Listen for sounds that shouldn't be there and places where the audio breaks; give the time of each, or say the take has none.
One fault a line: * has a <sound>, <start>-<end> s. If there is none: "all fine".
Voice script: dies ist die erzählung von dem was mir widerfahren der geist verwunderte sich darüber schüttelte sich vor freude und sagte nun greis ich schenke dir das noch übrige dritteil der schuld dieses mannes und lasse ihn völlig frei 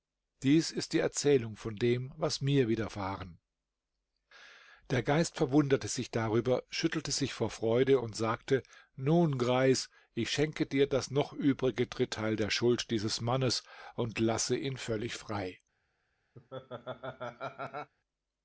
* has a laugh, 16.4-17.9 s